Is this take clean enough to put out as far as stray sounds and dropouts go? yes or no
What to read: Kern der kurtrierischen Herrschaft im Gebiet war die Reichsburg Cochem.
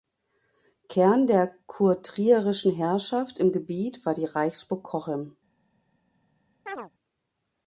no